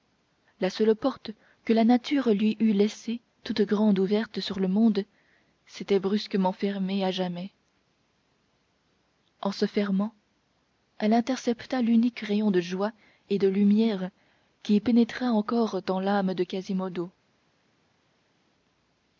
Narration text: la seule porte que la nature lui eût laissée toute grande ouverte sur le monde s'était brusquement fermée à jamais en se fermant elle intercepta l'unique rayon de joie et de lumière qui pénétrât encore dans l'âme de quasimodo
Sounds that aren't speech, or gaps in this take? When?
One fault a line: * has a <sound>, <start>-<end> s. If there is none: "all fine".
all fine